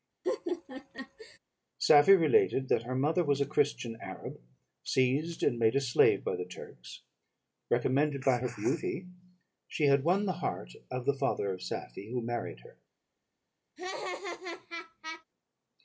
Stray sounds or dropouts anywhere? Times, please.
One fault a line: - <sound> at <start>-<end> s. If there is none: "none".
- laugh at 0.2-1.4 s
- laugh at 13.8-15.2 s